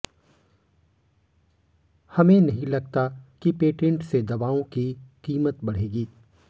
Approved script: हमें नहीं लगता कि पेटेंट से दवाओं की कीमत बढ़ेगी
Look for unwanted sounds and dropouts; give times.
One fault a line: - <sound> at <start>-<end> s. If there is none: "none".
none